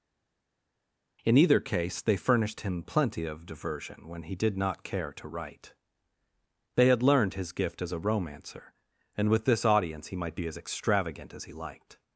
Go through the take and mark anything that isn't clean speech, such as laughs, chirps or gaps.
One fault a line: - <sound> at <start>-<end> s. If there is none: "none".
none